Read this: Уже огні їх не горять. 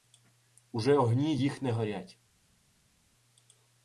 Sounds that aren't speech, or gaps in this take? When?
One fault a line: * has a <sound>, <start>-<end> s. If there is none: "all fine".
all fine